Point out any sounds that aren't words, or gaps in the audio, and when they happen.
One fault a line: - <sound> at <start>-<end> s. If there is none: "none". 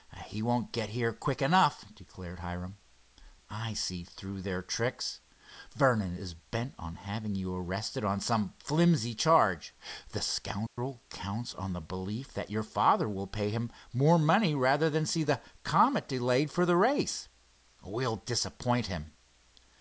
- dropout at 10.7-10.8 s